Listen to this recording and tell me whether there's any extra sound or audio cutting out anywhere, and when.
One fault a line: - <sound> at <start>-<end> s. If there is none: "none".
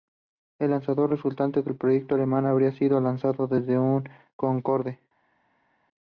none